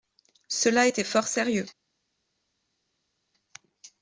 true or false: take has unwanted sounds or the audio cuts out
false